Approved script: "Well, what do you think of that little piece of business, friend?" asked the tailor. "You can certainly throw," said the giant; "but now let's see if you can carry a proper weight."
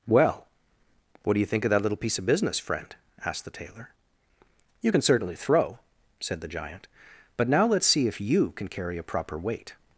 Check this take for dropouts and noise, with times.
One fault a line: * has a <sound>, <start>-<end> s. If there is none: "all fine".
all fine